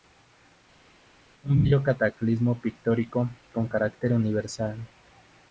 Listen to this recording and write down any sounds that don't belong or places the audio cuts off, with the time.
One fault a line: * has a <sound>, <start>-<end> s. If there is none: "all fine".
all fine